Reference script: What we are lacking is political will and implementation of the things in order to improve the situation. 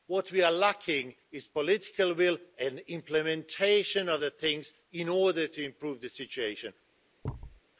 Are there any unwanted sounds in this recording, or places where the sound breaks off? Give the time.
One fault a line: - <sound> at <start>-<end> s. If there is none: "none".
- thud at 7.2-7.6 s